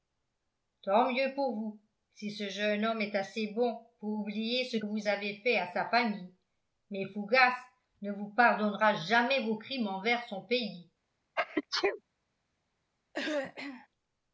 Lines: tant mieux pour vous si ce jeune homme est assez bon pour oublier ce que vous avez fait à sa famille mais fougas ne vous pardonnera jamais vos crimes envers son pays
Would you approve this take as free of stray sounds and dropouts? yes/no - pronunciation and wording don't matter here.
no